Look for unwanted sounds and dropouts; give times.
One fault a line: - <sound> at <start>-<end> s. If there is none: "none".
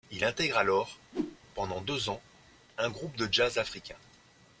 - whoosh at 1.1-1.4 s